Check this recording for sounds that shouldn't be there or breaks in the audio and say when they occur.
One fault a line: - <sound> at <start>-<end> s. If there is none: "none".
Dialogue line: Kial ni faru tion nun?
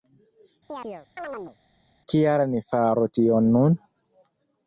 - chirp at 0.7-1.6 s